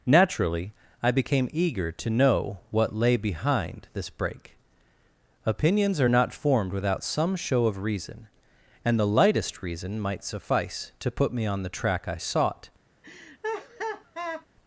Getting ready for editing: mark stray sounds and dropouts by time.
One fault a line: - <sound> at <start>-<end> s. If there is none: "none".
- laugh at 13.0-14.5 s